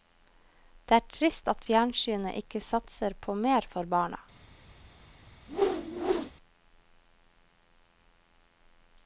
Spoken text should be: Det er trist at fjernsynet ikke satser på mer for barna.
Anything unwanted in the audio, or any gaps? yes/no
yes